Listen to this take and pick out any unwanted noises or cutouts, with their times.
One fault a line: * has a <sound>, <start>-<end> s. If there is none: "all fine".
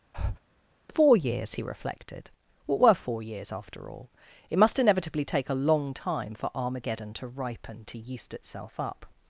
* has a breath, 0.1-0.4 s